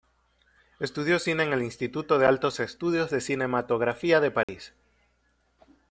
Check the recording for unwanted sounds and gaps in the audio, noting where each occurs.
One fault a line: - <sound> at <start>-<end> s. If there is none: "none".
- dropout at 4.4-4.5 s